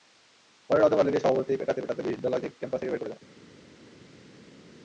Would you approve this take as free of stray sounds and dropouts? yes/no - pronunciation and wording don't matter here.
yes